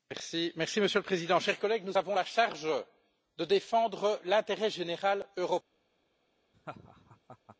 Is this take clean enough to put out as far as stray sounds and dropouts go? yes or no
no